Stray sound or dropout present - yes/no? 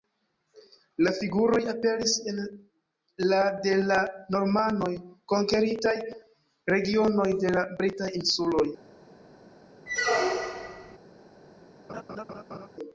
yes